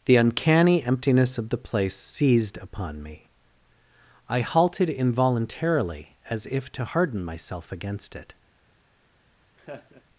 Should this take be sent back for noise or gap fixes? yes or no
yes